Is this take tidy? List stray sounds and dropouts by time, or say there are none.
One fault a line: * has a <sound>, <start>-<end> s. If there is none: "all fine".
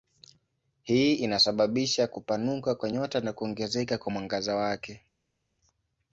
all fine